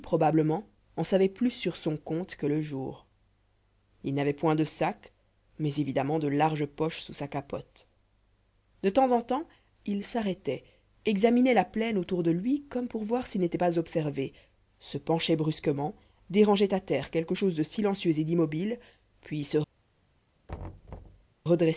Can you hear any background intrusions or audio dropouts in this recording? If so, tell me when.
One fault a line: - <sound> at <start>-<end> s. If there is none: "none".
- thud at 20.5-21.3 s